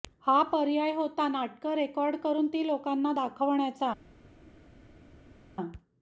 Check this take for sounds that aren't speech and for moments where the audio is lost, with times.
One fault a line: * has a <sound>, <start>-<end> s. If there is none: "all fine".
all fine